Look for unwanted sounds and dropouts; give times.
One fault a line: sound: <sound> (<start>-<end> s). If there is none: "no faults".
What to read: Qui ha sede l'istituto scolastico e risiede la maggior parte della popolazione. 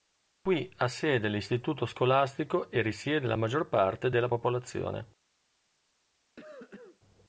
sound: cough (6.4-7.0 s)